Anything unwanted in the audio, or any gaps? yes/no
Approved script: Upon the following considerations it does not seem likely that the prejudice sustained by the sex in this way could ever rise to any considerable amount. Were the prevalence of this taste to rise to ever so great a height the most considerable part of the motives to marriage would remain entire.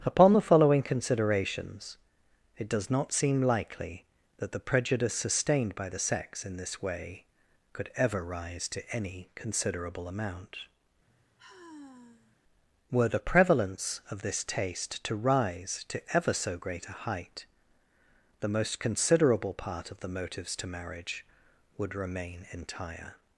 yes